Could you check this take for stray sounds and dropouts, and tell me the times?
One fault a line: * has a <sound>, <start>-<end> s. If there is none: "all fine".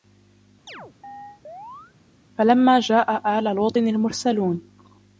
* has a chirp, 0.7-1.9 s